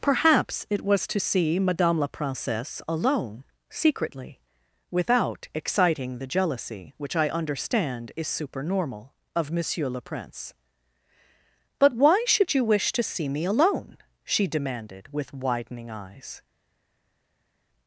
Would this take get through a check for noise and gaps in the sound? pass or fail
pass